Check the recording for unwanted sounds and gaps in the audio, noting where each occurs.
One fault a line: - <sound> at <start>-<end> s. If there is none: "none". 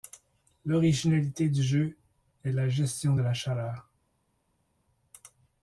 none